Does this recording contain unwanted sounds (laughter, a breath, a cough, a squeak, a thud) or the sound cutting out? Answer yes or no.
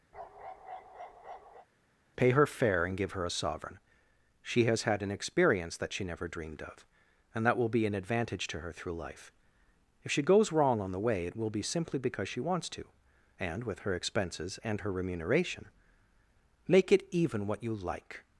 yes